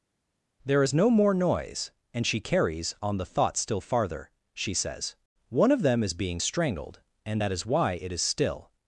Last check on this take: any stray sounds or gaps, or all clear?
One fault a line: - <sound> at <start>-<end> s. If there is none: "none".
none